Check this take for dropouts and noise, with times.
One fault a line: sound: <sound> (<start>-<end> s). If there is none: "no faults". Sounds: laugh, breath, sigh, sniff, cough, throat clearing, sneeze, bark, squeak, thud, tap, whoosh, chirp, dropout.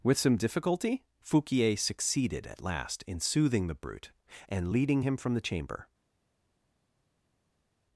no faults